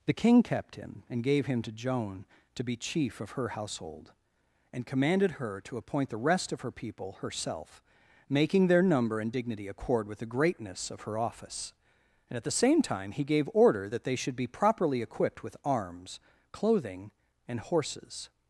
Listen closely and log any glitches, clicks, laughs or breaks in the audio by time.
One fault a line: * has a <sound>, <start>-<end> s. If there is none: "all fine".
all fine